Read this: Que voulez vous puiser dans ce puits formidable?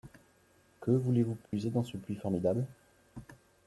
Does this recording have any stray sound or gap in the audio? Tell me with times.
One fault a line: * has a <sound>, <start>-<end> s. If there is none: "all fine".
* has a dropout, 1.5-1.5 s